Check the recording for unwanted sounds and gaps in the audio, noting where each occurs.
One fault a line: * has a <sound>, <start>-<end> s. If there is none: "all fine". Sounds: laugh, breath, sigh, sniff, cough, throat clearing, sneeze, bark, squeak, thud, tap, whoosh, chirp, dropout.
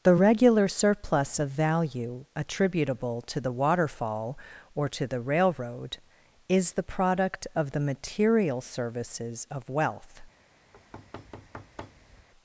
* has a thud, 10.7-12.3 s